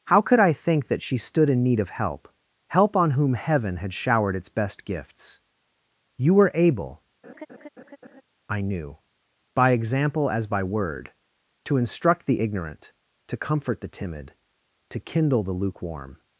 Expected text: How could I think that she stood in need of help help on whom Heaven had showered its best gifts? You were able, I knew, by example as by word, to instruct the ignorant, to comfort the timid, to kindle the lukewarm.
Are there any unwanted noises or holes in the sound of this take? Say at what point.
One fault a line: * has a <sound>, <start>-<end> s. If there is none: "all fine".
* has a laugh, 7.2-8.2 s